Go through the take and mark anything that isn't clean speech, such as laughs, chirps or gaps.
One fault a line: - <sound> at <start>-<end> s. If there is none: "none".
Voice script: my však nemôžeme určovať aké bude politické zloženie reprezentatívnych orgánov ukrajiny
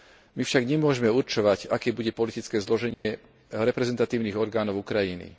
- dropout at 2.9-3.1 s